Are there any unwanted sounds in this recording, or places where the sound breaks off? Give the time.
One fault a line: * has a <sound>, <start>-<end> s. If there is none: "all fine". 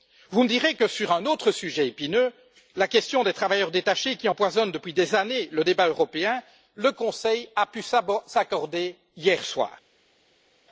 all fine